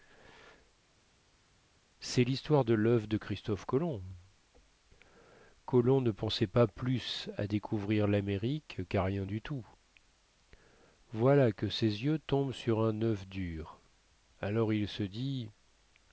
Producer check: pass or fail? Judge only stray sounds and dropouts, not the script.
pass